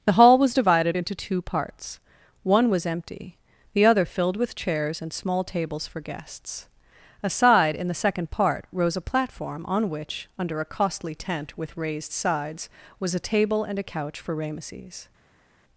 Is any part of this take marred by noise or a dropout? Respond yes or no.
no